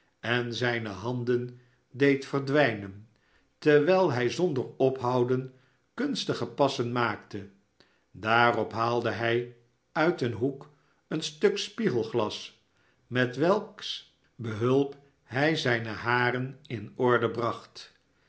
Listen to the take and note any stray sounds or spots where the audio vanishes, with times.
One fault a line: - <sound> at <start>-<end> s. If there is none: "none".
none